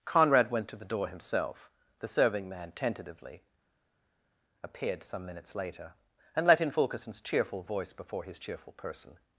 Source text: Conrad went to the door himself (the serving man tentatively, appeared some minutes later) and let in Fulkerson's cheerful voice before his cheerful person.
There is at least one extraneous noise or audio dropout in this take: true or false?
false